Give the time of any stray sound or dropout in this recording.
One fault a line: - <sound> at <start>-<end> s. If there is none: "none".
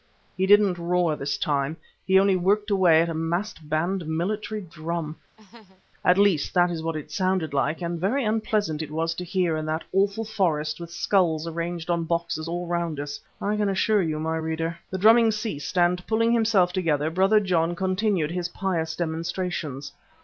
- laugh at 5.4-5.8 s